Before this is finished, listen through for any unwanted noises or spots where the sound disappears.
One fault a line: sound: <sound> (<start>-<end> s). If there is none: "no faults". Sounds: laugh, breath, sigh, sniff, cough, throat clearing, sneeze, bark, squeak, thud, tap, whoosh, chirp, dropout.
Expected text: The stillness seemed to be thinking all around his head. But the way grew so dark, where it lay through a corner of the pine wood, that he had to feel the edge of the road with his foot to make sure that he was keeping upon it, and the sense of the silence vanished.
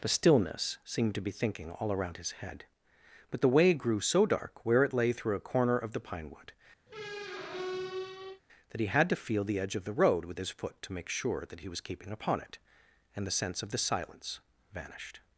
sound: squeak (6.9-8.4 s)